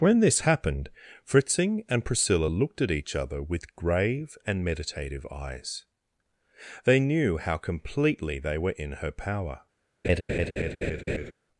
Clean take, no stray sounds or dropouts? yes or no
no